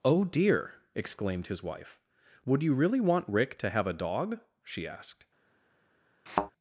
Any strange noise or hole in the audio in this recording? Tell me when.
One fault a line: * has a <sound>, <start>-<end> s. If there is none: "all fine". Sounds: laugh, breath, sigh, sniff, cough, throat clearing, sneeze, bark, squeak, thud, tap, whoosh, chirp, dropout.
* has a thud, 6.3-6.5 s